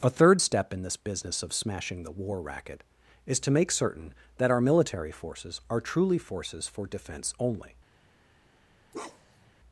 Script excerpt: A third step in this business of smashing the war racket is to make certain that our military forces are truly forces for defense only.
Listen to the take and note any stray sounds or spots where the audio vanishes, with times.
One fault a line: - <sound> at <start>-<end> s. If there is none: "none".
- bark at 8.9-9.5 s